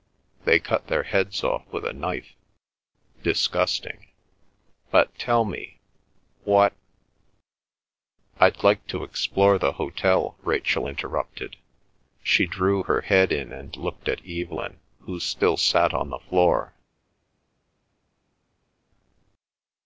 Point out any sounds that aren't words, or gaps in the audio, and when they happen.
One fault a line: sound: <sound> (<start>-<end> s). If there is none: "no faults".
no faults